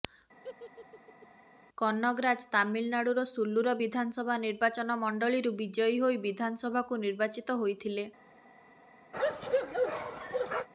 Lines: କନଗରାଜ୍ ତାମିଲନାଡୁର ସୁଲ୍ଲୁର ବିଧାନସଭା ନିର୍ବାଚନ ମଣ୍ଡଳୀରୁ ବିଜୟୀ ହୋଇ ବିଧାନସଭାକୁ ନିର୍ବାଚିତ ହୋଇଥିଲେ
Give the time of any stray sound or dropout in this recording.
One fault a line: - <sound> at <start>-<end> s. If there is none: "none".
- laugh at 0.4-1.3 s
- bark at 9.1-10.7 s